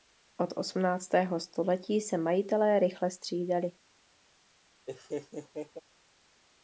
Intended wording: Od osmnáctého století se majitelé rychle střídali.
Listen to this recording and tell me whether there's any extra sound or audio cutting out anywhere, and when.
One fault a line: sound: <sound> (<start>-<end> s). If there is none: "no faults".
sound: laugh (4.9-5.8 s)